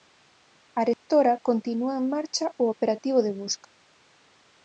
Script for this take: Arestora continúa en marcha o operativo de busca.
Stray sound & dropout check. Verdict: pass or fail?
fail